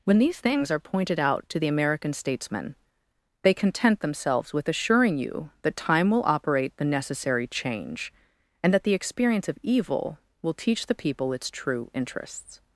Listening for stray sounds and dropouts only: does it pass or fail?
pass